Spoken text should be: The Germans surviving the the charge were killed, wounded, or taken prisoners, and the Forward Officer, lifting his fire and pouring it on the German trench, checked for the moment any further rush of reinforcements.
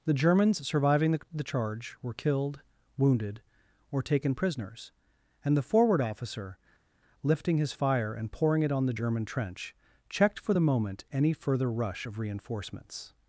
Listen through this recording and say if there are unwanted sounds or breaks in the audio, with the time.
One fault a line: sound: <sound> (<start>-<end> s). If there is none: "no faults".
no faults